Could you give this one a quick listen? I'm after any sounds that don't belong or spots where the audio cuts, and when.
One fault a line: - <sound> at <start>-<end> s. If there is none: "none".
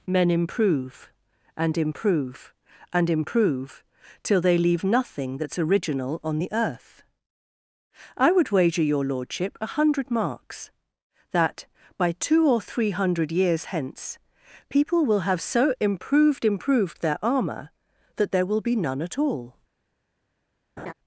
- laugh at 20.8-20.9 s